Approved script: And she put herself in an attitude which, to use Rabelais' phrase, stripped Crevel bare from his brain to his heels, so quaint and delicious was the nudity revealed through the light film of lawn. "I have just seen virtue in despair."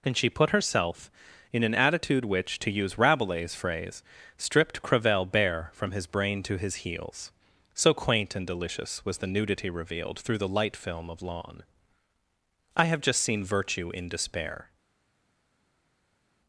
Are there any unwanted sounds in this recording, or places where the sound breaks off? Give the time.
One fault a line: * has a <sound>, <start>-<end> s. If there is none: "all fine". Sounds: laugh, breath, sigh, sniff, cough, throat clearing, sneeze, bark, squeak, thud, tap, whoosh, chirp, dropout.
all fine